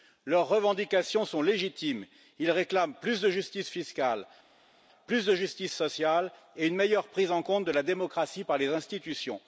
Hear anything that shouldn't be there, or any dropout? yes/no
no